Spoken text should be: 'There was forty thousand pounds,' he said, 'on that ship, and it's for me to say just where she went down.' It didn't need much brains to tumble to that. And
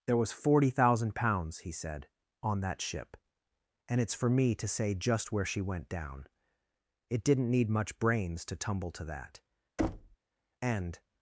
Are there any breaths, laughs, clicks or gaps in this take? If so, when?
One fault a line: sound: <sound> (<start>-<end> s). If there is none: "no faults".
sound: thud (9.8-10.2 s)